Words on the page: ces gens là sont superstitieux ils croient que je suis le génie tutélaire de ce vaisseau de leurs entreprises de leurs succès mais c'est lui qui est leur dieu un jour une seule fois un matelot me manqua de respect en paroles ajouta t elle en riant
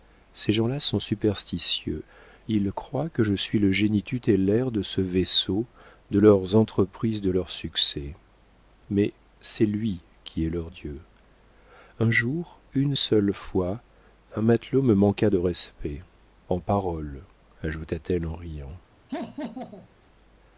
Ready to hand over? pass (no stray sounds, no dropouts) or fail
fail